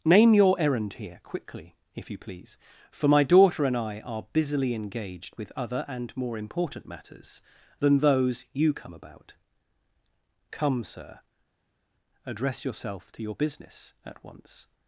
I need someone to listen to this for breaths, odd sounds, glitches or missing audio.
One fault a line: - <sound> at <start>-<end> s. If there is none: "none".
none